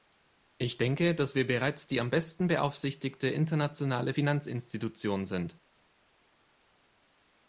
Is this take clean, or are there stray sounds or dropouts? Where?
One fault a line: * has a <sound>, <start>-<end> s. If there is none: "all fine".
all fine